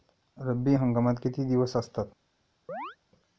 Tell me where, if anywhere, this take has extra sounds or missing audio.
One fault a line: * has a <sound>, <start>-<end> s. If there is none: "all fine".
* has a chirp, 2.7-3.0 s